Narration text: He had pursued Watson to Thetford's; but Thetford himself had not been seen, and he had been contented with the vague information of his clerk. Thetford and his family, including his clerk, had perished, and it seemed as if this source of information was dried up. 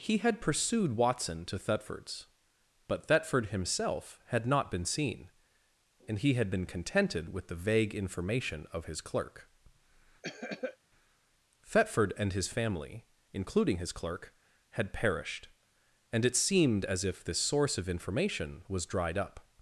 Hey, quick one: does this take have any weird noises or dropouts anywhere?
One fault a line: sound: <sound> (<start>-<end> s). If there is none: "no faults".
sound: cough (10.2-10.8 s)